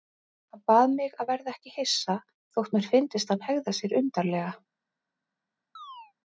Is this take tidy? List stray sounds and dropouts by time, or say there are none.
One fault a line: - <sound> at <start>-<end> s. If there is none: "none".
- chirp at 5.8-6.1 s